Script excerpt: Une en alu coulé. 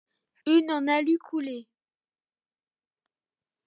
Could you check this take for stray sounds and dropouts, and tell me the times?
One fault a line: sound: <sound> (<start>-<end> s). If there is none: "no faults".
no faults